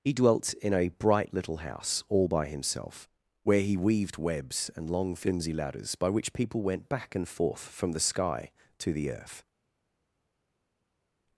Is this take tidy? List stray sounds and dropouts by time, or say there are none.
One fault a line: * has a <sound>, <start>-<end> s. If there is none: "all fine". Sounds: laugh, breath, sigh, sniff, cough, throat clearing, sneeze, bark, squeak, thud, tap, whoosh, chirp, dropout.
all fine